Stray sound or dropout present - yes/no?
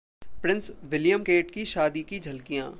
no